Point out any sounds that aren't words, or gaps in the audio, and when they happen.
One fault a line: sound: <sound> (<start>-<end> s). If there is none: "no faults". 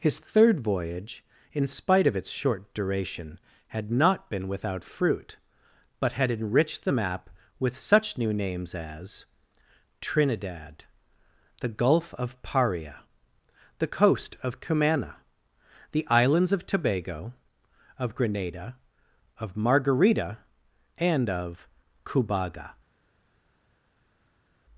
no faults